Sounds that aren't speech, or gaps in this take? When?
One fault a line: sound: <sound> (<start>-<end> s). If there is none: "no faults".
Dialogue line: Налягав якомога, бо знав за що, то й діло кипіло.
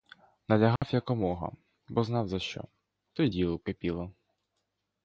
sound: dropout (0.8-0.8 s)